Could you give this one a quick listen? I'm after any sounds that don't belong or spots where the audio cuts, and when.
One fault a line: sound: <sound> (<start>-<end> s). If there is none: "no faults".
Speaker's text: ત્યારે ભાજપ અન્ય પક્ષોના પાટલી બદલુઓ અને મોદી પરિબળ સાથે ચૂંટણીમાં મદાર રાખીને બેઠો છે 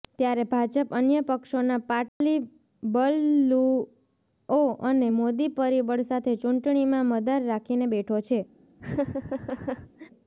sound: dropout (2.1-2.2 s)
sound: laugh (8.8-10.1 s)